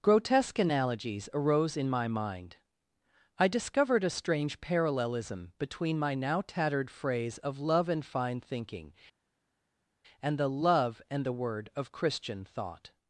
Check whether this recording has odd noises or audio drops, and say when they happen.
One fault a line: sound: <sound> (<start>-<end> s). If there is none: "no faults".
no faults